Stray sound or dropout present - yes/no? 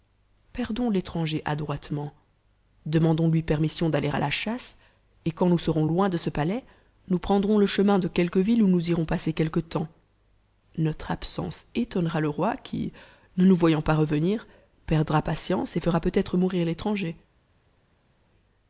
no